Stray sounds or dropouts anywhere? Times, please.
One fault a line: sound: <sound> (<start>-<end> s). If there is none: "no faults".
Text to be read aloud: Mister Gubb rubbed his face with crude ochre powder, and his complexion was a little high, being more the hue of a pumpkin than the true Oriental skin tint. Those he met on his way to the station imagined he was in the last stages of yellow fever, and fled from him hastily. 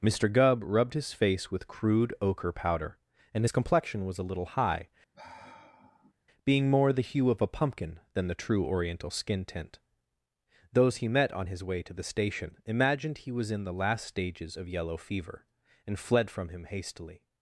sound: sigh (5.1-6.1 s)